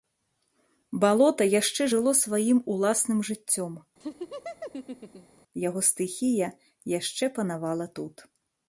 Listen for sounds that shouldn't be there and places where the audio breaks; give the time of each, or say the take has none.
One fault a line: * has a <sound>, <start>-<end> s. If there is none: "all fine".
* has a laugh, 4.0-5.4 s